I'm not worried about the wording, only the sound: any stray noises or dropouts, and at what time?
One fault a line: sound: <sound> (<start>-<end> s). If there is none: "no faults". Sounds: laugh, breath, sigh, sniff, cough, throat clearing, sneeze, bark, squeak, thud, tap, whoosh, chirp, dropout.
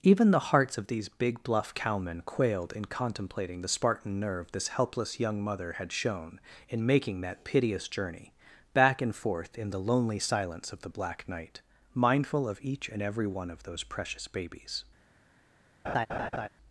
sound: laugh (15.8-16.5 s)